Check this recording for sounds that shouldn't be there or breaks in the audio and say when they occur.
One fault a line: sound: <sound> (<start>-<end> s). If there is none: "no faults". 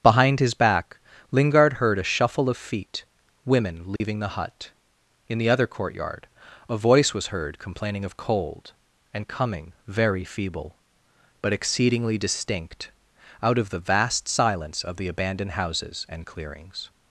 sound: dropout (4.0-4.0 s)